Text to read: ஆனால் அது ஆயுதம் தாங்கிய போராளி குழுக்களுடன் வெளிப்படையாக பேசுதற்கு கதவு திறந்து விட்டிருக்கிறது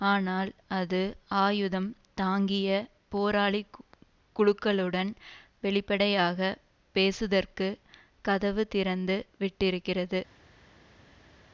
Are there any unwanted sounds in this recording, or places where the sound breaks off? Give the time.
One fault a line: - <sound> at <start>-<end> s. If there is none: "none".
none